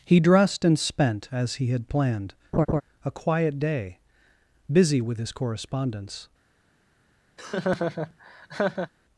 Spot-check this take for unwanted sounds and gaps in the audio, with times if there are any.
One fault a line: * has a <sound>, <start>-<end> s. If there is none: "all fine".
* has a laugh, 2.5-2.8 s
* has a laugh, 7.4-8.9 s